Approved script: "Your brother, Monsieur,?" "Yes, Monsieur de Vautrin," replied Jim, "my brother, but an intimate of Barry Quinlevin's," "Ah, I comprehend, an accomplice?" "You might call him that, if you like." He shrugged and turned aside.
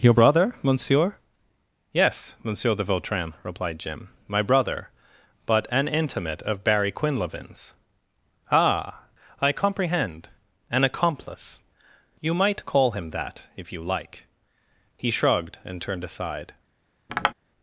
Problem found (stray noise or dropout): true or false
true